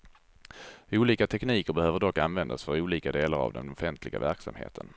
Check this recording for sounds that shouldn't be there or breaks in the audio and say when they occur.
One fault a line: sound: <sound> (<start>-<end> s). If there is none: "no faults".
no faults